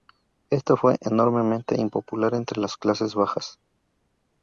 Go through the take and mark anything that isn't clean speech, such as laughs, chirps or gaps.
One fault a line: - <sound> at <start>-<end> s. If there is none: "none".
none